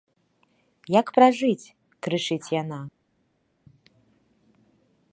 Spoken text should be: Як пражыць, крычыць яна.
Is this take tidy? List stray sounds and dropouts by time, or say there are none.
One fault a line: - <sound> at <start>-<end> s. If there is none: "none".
none